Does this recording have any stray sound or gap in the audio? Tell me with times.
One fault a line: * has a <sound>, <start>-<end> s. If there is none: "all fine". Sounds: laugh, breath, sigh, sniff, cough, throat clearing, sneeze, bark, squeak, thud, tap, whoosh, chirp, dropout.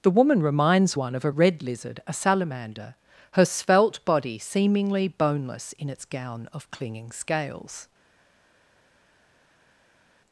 all fine